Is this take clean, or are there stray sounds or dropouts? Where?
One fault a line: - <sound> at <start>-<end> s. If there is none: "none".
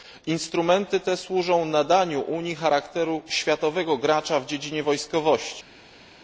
none